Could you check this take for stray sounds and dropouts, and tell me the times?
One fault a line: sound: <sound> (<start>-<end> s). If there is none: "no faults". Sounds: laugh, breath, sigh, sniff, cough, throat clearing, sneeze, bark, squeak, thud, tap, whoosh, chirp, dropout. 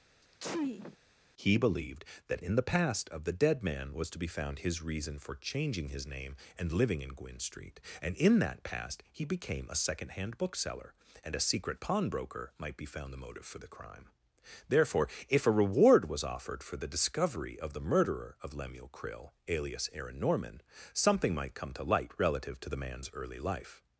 sound: sneeze (0.2-1.0 s)